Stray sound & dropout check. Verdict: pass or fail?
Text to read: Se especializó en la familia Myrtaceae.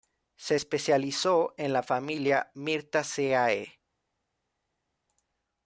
pass